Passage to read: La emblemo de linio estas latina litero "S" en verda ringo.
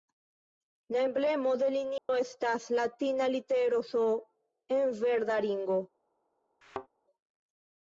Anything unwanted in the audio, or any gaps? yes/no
yes